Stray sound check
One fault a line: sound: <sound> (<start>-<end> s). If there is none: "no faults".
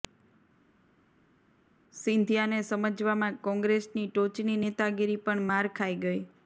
no faults